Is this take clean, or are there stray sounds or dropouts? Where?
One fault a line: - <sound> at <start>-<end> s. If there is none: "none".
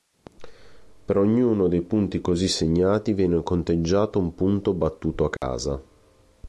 - dropout at 5.4-5.4 s